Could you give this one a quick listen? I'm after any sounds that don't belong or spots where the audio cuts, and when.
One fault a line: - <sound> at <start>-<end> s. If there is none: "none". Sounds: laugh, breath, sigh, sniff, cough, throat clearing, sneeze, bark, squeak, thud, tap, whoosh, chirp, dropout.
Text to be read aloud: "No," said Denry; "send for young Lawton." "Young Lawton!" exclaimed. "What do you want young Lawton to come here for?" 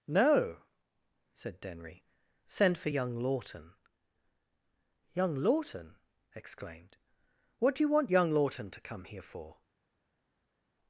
none